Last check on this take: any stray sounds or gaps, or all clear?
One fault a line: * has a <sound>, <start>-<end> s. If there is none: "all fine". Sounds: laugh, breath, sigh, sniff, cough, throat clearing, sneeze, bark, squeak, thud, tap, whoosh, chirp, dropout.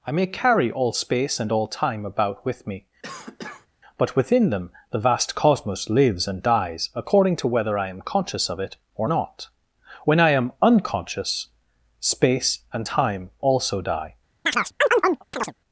* has a cough, 3.0-3.7 s
* has a chirp, 14.5-15.5 s